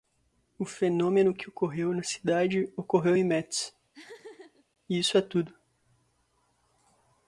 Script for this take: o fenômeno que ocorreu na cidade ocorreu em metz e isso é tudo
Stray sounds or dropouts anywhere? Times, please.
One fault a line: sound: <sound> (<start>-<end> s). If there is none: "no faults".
sound: laugh (3.9-4.7 s)